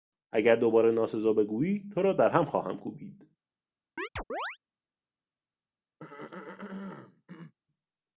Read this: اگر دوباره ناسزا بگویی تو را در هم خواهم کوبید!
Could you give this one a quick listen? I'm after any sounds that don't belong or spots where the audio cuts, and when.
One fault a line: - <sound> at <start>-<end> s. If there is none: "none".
- chirp at 4.0-4.6 s
- throat clearing at 6.0-7.5 s